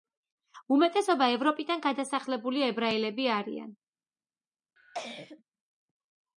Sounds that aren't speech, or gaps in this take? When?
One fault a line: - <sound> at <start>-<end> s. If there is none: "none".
- cough at 4.8-5.4 s